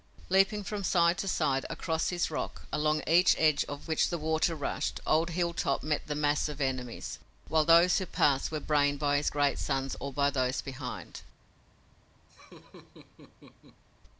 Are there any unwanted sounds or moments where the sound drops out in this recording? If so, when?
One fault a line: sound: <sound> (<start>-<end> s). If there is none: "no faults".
sound: laugh (12.3-13.8 s)